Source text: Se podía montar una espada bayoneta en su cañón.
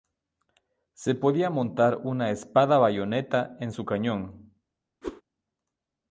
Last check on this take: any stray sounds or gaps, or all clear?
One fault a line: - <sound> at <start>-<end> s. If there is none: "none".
- whoosh at 5.0-5.2 s